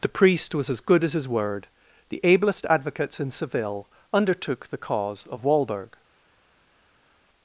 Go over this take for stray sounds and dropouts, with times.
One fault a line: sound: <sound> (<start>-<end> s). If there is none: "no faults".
no faults